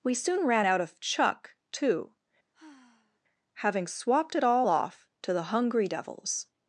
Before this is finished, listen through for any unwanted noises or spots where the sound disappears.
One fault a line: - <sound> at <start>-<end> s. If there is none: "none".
- sigh at 2.5-3.2 s